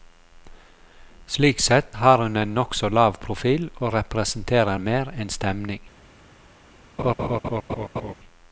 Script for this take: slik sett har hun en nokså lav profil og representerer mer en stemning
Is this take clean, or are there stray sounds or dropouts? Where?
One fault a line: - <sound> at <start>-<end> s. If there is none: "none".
- laugh at 7.0-8.1 s